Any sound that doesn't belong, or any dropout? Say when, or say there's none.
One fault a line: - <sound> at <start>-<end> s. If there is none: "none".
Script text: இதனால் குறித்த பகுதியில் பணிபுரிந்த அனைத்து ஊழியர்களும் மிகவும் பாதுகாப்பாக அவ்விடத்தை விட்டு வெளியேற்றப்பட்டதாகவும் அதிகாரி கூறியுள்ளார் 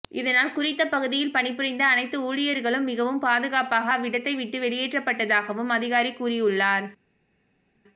none